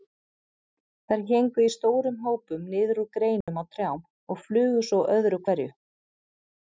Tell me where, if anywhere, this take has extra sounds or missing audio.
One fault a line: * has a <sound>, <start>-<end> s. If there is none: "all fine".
* has a dropout, 3.4-3.5 s